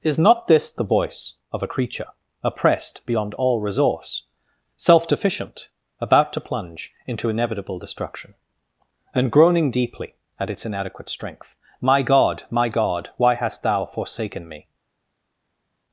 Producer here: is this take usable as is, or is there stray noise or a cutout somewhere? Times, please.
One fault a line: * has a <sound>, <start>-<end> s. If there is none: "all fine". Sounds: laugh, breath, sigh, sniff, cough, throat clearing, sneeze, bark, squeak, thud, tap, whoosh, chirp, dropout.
all fine